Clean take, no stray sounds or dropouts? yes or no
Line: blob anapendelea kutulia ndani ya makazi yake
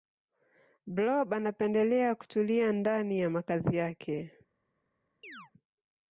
no